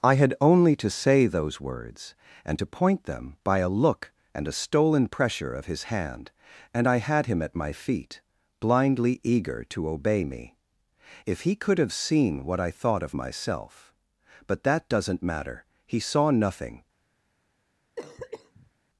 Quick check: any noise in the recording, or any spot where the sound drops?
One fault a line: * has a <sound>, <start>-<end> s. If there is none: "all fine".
* has a cough, 18.0-18.7 s